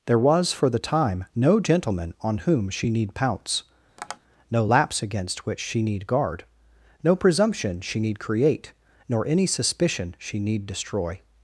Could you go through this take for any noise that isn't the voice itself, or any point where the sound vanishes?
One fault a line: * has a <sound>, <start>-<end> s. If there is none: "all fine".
* has a tap, 4.0-4.2 s